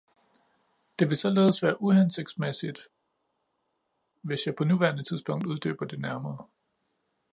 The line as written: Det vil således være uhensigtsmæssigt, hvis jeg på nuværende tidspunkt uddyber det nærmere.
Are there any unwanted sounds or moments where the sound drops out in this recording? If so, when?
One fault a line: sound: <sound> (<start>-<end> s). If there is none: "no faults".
no faults